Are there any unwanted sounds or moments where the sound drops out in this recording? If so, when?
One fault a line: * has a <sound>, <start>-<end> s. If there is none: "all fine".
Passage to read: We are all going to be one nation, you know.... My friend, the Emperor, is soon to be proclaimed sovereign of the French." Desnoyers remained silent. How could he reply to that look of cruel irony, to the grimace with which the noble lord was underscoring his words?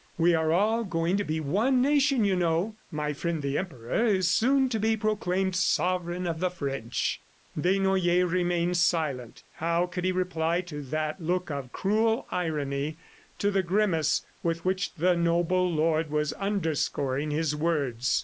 all fine